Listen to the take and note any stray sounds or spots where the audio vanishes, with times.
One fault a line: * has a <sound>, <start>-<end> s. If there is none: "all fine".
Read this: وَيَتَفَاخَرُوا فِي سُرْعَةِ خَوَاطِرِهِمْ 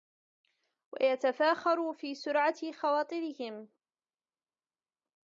all fine